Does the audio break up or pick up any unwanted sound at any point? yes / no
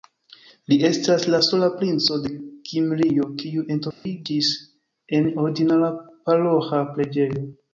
yes